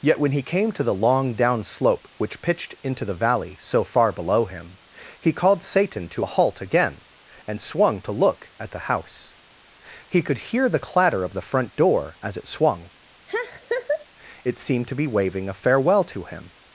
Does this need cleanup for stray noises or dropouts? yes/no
yes